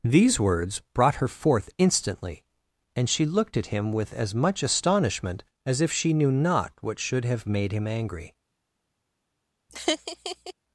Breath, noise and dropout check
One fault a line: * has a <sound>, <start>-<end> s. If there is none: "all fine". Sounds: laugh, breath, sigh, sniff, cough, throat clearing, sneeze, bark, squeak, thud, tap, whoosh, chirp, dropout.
* has a laugh, 9.7-10.5 s